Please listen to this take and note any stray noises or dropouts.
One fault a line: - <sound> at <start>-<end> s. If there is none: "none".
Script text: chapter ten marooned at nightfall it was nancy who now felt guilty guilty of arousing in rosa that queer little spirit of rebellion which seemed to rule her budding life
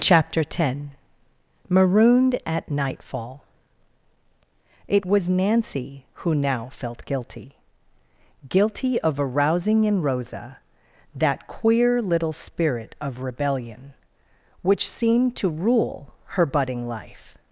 none